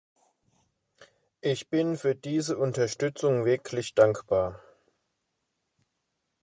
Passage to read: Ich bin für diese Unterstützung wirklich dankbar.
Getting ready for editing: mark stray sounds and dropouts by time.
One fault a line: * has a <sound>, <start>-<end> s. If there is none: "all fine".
all fine